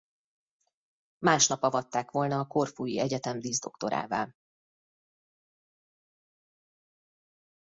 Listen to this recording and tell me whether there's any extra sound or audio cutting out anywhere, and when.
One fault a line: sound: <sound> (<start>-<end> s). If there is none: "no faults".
no faults